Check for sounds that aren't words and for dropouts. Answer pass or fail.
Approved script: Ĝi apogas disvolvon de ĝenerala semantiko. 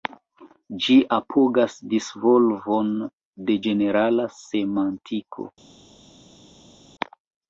pass